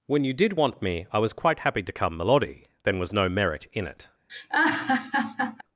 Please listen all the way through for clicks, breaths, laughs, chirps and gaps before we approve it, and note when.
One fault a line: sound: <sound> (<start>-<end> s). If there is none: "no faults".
sound: laugh (4.3-5.6 s)